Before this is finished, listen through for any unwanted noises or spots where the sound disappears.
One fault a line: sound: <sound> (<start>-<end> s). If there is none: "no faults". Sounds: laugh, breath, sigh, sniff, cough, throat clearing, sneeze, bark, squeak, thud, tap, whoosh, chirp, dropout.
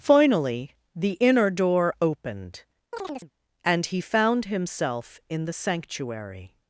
sound: chirp (2.9-3.3 s)